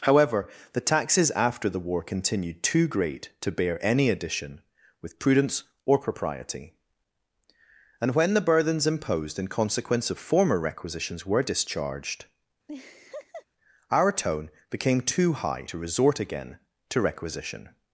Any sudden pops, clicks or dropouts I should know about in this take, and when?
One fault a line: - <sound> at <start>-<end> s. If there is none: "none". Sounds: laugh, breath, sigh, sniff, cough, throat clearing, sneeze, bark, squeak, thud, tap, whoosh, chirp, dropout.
- laugh at 12.7-13.5 s